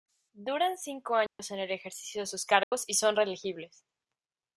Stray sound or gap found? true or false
true